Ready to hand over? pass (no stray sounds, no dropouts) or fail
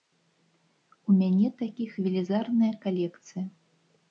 pass